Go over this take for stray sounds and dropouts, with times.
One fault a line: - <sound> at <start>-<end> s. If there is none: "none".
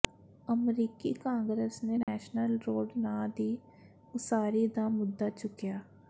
- dropout at 2.0-2.1 s